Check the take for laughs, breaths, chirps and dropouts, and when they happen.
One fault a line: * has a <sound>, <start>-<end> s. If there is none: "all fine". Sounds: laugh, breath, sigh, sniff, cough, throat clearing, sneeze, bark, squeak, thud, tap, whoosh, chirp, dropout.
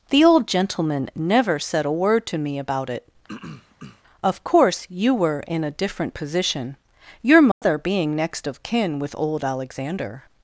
* has a throat clearing, 3.3-4.0 s
* has a dropout, 7.5-7.6 s